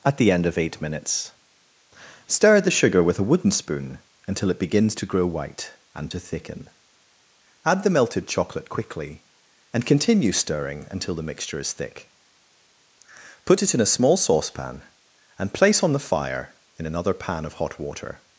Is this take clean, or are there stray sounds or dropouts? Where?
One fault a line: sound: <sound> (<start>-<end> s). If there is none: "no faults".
no faults